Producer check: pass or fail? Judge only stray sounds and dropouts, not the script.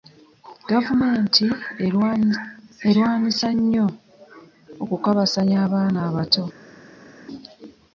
pass